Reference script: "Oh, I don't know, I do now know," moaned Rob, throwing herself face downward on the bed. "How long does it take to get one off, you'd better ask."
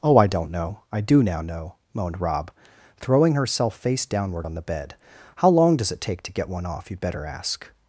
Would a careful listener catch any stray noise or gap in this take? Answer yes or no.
no